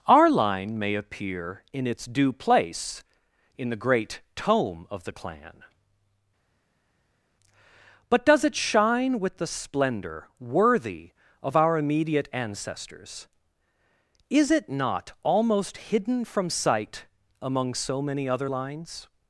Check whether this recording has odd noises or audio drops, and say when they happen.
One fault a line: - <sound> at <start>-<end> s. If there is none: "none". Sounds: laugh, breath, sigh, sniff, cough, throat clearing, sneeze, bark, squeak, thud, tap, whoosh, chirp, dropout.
none